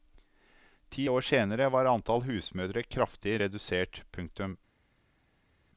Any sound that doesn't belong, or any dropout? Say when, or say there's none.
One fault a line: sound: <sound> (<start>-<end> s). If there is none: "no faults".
no faults